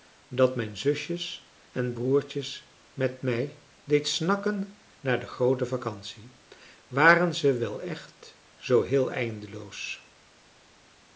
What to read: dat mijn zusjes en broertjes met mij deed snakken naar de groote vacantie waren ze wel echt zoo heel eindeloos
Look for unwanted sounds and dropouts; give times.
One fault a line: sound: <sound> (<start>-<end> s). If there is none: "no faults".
no faults